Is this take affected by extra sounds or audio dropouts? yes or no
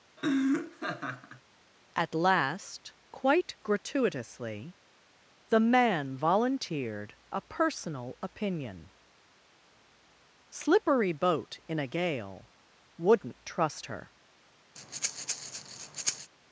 yes